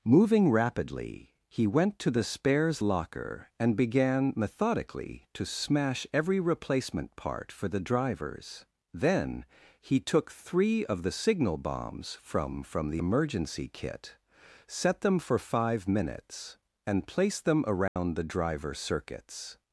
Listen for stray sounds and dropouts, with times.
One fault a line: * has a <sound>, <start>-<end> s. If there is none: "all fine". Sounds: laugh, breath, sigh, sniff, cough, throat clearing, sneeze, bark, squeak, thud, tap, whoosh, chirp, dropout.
* has a dropout, 17.9-18.0 s